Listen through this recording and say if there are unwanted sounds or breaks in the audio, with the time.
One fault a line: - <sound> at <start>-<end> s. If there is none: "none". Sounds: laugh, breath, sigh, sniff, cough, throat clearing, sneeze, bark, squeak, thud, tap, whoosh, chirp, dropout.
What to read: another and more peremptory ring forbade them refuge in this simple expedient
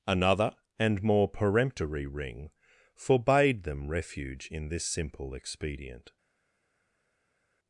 none